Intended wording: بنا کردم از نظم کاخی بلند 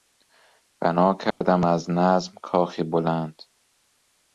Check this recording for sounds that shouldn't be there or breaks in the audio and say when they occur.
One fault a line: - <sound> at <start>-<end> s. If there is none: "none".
- dropout at 1.3-1.4 s